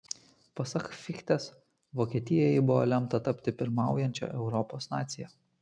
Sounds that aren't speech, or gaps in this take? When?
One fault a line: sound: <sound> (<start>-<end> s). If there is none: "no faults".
no faults